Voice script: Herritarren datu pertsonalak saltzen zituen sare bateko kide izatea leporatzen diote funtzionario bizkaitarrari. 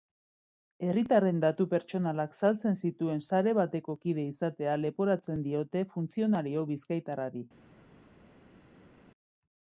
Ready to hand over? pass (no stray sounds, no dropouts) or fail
pass